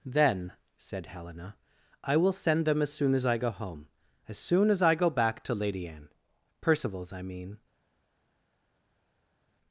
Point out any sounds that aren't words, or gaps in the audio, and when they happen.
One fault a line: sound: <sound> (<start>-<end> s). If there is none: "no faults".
no faults